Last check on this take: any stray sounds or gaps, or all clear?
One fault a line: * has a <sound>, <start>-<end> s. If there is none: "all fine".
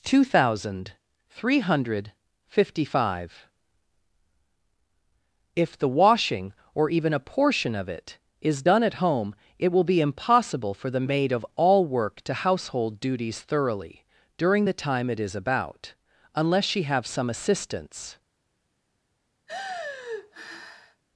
* has a sigh, 19.5-21.0 s